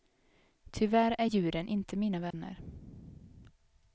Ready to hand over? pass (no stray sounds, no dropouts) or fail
fail